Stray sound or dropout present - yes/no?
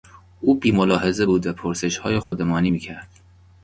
yes